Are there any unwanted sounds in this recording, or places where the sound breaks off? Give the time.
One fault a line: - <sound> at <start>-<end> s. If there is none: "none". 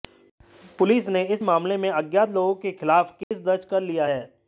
- dropout at 3.2-3.3 s